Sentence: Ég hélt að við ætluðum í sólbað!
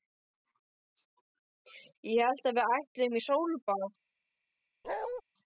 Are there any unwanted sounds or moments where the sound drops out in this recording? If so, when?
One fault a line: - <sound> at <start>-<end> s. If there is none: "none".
- bark at 4.8-5.2 s